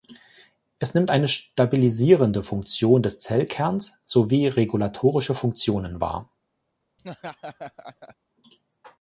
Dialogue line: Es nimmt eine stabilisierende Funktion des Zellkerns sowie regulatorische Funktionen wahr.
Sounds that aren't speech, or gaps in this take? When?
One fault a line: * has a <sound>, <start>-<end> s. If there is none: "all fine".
* has a laugh, 7.0-8.2 s